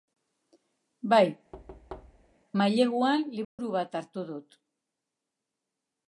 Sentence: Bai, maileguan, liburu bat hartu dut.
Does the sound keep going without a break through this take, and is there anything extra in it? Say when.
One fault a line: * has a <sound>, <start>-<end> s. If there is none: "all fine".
* has a thud, 1.5-2.3 s
* has a dropout, 3.4-3.6 s